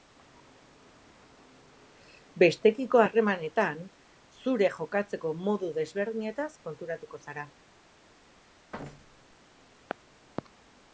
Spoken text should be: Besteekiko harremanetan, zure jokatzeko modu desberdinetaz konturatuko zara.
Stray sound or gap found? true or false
true